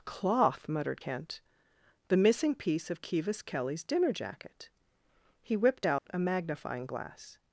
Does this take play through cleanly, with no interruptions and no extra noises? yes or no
no